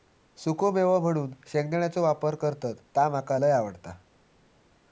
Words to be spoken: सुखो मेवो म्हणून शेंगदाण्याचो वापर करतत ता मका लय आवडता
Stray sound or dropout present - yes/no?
no